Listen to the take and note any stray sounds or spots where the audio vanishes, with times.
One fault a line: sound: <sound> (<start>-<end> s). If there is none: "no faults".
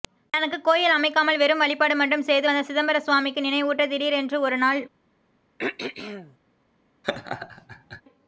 sound: throat clearing (5.6-6.4 s)
sound: laugh (7.0-8.0 s)